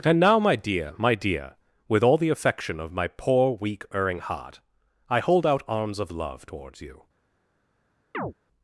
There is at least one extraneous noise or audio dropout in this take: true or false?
true